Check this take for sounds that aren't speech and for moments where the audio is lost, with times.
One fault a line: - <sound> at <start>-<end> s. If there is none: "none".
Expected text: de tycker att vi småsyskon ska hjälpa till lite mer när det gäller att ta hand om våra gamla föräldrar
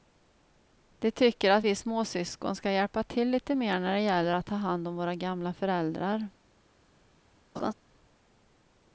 - laugh at 7.6-7.7 s